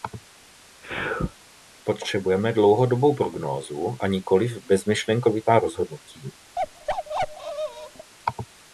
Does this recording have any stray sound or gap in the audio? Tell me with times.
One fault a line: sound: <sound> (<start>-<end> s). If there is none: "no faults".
sound: sneeze (0.8-1.3 s)
sound: bark (6.6-8.1 s)